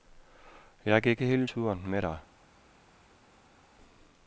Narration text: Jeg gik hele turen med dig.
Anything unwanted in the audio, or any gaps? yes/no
no